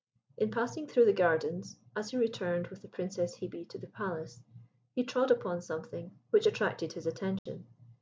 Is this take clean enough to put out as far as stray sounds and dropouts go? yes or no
no